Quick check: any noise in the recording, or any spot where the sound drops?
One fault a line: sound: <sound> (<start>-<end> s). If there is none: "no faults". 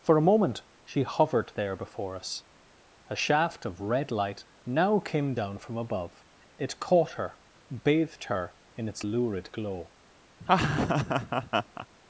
sound: laugh (10.4-11.9 s)